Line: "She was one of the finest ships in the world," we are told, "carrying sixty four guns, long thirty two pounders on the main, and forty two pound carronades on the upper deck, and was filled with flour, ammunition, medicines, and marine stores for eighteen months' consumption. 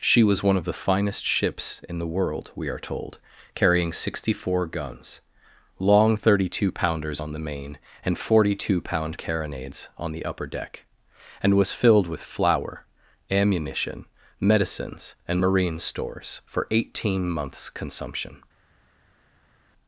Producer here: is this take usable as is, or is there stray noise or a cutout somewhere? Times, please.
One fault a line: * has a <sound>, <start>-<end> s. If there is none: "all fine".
all fine